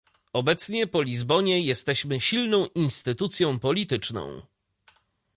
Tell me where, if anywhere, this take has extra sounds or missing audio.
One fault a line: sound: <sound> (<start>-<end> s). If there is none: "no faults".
no faults